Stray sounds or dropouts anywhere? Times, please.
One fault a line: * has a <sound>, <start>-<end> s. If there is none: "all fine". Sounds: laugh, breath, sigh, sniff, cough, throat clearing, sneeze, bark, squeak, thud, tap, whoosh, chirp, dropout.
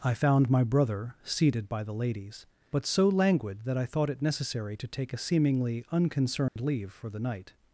* has a dropout, 6.5-6.6 s